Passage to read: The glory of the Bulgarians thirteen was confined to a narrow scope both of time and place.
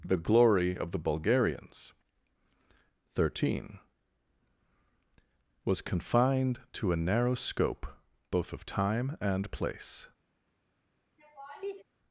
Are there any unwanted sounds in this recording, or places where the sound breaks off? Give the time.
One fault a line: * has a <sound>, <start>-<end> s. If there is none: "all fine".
* has a laugh, 11.2-11.8 s